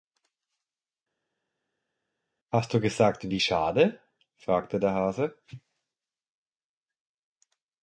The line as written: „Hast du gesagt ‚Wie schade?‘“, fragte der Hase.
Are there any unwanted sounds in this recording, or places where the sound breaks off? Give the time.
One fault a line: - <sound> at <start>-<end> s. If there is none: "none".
none